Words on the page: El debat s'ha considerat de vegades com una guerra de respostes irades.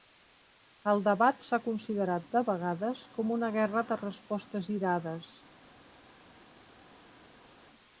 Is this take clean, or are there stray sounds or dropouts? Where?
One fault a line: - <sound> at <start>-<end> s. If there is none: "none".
none